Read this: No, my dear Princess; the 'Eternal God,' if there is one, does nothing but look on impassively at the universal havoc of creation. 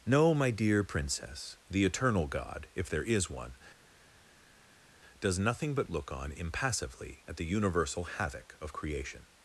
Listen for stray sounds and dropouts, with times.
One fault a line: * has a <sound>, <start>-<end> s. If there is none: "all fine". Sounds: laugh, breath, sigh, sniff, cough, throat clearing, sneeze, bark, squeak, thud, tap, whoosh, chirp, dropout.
all fine